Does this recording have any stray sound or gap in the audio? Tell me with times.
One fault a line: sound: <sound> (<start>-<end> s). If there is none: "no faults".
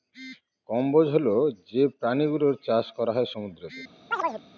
sound: chirp (4.1-4.4 s)